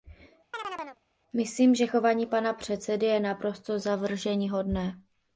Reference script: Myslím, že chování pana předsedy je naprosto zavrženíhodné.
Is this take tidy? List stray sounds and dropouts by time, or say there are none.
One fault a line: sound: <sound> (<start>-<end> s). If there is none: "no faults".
sound: chirp (0.5-1.0 s)